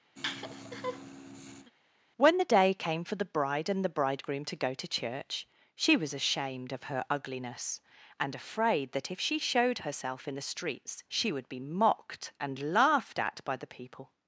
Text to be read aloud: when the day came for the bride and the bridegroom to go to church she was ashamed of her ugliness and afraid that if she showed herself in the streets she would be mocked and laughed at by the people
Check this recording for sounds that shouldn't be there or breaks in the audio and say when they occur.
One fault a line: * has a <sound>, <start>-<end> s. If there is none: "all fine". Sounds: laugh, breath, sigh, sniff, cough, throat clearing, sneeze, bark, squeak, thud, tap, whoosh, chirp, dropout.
* has a laugh, 0.2-1.7 s